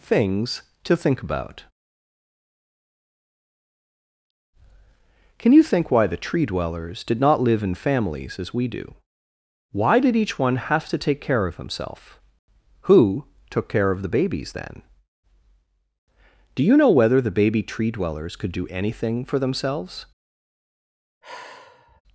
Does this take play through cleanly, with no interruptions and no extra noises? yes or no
no